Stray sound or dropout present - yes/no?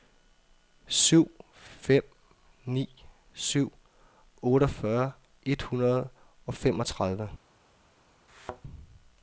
yes